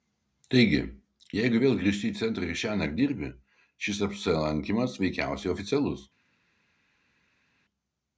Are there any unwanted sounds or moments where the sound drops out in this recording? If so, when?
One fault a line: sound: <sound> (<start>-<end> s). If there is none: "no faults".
no faults